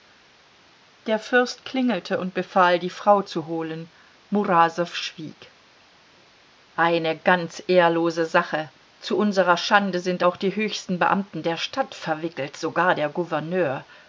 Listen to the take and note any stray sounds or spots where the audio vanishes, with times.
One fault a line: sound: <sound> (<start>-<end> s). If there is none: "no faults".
no faults